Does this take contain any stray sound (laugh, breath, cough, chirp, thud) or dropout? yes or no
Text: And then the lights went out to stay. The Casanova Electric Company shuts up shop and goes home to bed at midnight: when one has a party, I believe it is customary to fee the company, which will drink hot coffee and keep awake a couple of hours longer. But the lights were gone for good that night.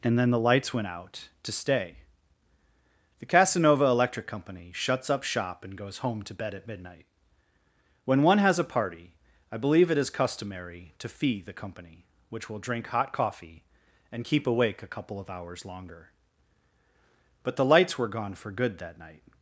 no